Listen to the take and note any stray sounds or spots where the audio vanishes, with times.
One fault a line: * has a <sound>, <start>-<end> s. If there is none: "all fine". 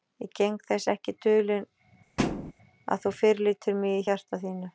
* has a thud, 2.2-2.5 s